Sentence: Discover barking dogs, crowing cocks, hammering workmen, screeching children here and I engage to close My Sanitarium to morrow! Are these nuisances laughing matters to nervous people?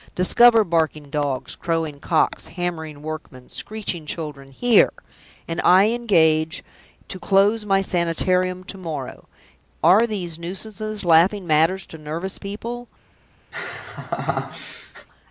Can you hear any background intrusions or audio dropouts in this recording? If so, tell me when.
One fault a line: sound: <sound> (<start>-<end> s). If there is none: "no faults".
sound: laugh (13.5-15.1 s)